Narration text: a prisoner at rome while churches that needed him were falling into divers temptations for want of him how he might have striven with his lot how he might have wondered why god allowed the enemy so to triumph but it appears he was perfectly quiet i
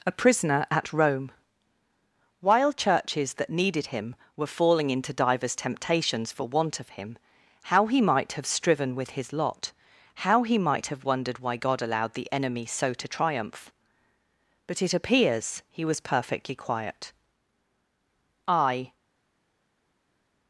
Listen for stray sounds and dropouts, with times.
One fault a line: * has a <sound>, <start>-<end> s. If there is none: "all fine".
all fine